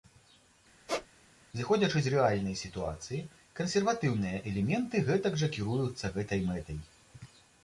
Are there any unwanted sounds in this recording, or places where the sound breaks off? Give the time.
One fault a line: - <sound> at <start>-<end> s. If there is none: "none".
- squeak at 0.9-1.1 s